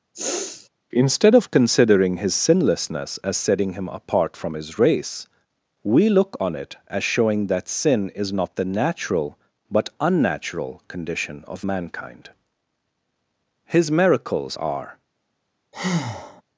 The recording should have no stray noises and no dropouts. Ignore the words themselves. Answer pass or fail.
fail